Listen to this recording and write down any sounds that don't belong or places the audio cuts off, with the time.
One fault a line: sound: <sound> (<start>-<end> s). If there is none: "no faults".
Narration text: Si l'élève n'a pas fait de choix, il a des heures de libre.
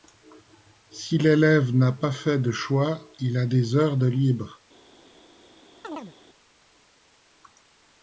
sound: chirp (5.8-6.1 s)